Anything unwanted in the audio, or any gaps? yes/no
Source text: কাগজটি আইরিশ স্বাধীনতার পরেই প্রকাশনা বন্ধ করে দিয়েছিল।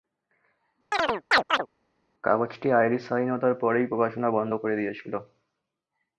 yes